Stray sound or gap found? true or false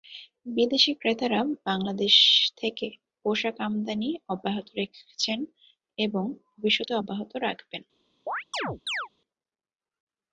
true